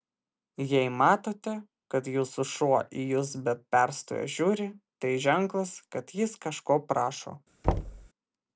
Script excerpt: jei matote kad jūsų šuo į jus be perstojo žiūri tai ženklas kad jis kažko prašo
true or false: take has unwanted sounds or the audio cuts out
true